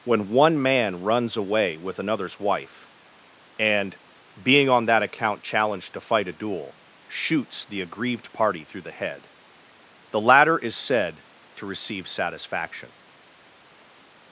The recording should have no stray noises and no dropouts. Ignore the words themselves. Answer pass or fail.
pass